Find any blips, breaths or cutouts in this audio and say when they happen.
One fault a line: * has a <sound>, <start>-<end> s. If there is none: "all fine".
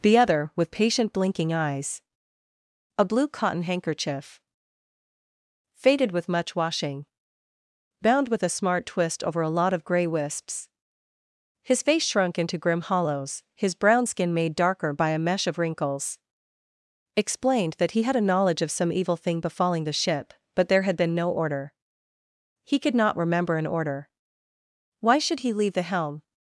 all fine